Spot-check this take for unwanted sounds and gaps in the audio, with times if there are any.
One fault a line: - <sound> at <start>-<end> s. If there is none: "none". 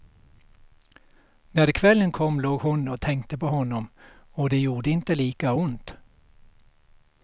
none